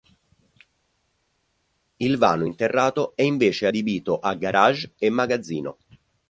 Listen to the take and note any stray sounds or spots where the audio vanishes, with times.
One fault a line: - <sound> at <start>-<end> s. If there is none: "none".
none